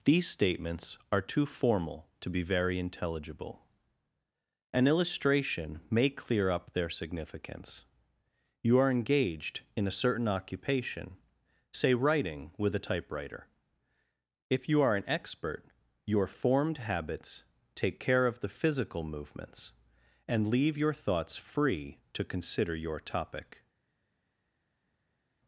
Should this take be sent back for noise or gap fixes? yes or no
no